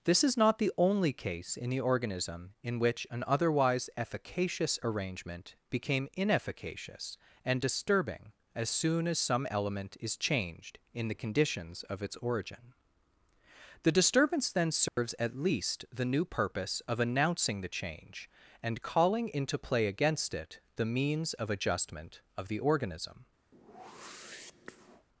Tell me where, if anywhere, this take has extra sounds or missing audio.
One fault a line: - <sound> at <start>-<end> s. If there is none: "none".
- dropout at 14.9-15.0 s
- whoosh at 23.5-25.1 s